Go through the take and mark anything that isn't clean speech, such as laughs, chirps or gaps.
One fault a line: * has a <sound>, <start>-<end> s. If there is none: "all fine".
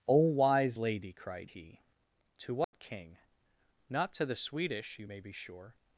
* has a dropout, 2.6-2.7 s